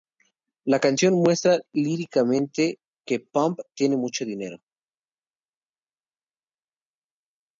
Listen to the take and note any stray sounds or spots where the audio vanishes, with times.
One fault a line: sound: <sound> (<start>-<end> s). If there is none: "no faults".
no faults